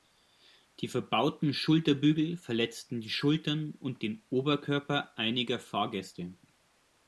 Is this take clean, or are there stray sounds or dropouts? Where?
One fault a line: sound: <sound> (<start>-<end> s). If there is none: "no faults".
no faults